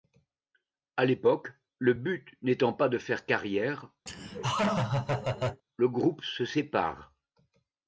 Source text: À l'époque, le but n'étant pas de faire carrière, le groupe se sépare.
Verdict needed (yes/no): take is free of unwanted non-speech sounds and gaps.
no